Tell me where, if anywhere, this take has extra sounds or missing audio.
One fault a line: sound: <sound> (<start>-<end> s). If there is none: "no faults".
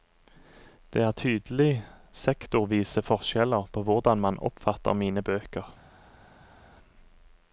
no faults